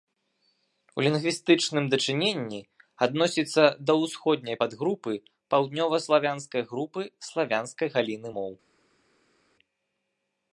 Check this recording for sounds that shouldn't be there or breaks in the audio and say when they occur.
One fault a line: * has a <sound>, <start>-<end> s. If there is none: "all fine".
all fine